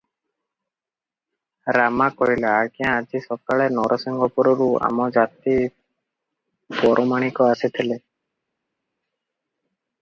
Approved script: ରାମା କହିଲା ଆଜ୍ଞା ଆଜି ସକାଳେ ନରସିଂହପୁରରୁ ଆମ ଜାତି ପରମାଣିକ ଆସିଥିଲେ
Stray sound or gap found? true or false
false